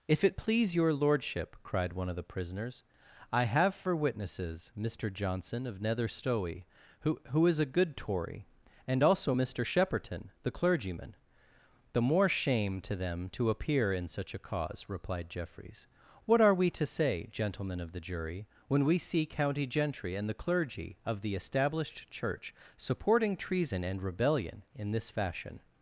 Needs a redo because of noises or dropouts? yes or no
no